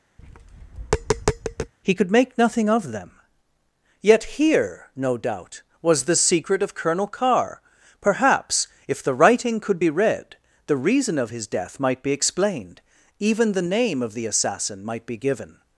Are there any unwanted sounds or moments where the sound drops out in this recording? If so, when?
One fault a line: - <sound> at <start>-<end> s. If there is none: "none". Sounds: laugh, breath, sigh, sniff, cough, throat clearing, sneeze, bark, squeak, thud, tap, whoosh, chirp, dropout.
- tap at 0.2-1.7 s